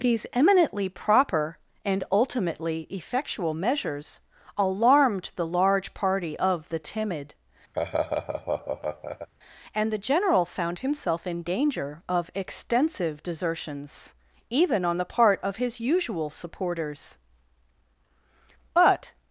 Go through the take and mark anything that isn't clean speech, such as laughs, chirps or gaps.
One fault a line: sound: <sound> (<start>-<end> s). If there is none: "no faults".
sound: laugh (7.7-9.3 s)